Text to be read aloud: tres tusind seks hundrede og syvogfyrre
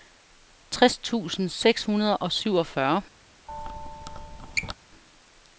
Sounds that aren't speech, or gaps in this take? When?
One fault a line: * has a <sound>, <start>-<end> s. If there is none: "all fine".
* has a squeak, 3.5-4.7 s